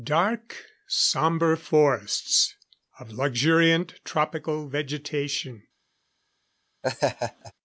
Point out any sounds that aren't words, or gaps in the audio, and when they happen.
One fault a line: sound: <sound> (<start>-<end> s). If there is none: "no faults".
sound: laugh (6.8-7.5 s)